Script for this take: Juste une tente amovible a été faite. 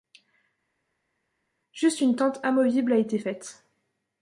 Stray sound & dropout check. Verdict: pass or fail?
pass